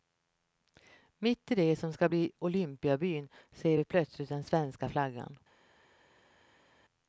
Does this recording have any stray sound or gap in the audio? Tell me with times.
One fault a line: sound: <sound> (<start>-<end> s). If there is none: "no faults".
no faults